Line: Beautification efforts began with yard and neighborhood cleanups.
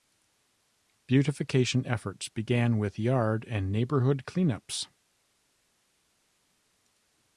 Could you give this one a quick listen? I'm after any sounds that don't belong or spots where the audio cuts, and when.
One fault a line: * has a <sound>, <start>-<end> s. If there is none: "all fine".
all fine